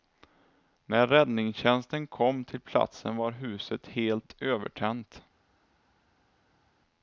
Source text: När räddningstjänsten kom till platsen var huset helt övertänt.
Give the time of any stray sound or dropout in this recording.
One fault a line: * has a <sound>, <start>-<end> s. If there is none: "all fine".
all fine